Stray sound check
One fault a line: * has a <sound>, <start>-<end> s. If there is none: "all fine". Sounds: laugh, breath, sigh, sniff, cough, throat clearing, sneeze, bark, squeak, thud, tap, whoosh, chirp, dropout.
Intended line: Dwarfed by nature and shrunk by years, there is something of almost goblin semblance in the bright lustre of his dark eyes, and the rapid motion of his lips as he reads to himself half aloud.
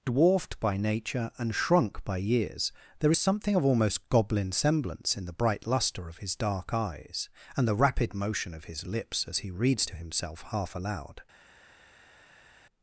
all fine